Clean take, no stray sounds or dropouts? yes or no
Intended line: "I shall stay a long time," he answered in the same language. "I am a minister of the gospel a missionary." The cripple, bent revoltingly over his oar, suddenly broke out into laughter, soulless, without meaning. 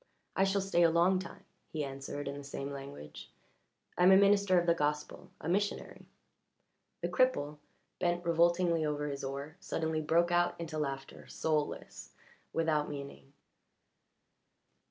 yes